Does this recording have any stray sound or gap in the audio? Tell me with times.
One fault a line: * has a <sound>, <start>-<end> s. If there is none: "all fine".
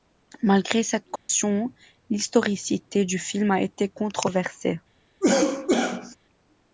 * has a dropout, 1.2-1.3 s
* has a cough, 5.2-6.2 s